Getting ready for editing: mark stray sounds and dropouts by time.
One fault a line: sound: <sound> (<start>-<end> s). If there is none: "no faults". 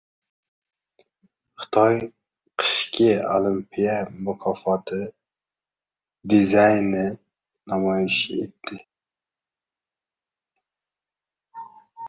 no faults